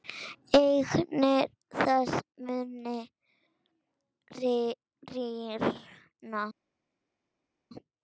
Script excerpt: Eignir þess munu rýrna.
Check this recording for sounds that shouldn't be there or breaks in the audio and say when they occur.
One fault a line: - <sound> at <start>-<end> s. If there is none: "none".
none